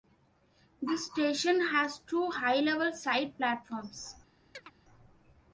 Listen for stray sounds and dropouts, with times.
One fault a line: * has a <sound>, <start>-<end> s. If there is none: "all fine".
* has a chirp, 4.5-4.7 s